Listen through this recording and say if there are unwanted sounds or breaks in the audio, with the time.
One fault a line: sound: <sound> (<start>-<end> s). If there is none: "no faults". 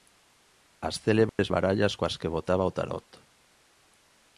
sound: dropout (1.3-1.4 s)